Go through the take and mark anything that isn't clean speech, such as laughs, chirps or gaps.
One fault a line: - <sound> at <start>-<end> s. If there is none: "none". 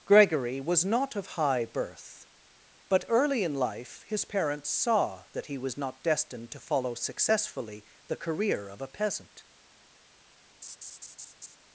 - laugh at 10.6-11.6 s